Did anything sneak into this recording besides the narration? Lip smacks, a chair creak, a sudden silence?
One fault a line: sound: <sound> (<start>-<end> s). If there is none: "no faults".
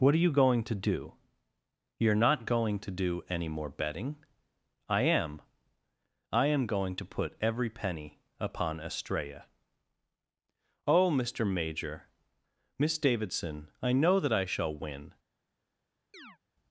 sound: chirp (16.1-16.4 s)